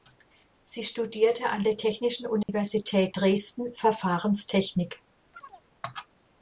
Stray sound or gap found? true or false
true